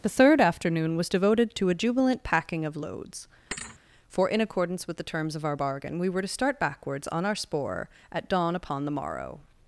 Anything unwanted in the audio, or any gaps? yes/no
yes